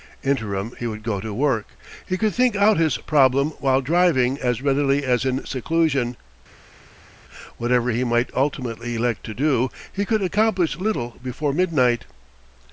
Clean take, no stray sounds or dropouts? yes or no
yes